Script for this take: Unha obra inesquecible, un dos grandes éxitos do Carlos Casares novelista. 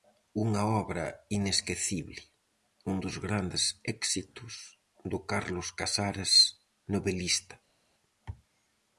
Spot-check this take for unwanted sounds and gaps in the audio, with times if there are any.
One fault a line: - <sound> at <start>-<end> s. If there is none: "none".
none